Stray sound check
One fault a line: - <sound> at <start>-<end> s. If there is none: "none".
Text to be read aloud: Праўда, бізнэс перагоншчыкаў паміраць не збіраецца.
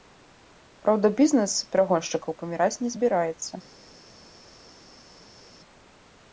none